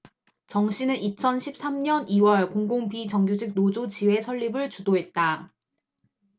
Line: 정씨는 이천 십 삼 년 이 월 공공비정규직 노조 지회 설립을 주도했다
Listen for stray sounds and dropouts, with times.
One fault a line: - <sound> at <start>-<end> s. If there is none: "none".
none